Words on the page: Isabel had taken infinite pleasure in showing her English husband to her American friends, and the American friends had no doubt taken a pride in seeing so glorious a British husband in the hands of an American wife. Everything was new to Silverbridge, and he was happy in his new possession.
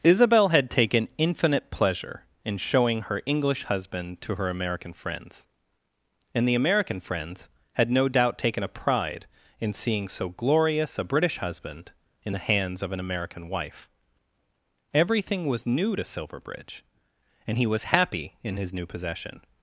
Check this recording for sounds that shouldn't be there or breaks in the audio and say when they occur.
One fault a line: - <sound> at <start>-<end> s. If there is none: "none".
none